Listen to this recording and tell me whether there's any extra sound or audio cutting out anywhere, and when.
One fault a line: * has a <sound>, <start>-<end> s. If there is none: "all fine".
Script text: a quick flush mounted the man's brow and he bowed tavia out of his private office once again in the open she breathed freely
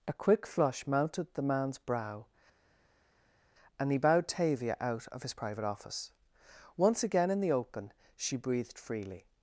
all fine